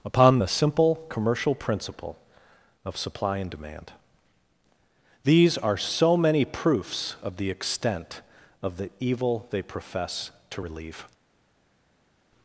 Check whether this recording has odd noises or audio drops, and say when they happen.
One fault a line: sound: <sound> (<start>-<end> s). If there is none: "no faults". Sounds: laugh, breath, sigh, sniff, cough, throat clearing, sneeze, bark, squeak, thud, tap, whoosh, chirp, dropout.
no faults